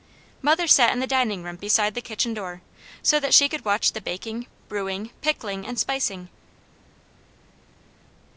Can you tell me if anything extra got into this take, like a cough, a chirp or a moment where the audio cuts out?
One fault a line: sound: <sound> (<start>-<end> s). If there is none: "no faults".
no faults